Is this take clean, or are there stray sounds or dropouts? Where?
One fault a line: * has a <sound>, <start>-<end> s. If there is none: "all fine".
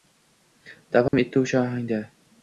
* has a dropout, 1.1-1.1 s